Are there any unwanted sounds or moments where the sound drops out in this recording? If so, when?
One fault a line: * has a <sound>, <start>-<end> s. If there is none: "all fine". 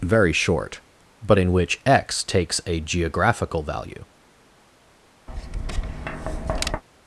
* has a tap, 5.3-6.8 s